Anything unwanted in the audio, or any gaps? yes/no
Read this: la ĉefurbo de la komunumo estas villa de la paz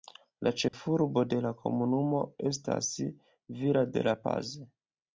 yes